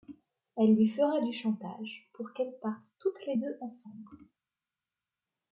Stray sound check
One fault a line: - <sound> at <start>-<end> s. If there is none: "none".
none